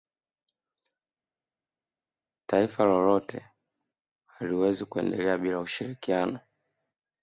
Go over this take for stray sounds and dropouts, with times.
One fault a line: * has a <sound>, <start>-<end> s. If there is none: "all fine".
all fine